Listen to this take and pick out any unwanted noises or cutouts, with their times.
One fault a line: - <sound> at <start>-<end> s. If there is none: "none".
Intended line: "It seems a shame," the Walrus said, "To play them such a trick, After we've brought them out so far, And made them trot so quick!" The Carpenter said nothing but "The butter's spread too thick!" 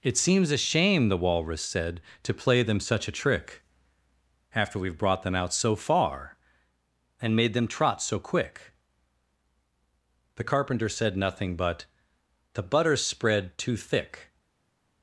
none